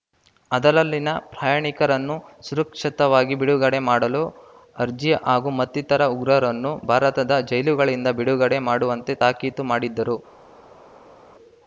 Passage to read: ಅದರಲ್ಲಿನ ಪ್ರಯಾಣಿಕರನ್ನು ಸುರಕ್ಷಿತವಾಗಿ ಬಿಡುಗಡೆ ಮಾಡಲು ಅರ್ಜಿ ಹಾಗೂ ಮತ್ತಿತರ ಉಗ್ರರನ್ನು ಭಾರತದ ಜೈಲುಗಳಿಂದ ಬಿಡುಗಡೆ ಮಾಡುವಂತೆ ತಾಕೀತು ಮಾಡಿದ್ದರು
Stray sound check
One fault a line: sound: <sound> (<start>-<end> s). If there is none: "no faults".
no faults